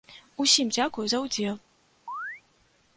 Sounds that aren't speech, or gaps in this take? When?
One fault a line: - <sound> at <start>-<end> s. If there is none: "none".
- chirp at 2.1-2.4 s